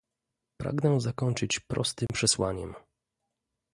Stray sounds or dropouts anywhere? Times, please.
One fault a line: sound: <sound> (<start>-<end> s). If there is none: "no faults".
sound: dropout (2.1-2.1 s)